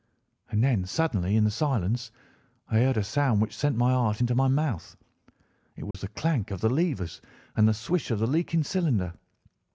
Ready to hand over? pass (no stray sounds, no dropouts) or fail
fail